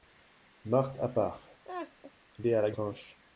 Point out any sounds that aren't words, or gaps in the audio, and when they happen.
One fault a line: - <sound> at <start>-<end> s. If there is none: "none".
- laugh at 1.6-2.1 s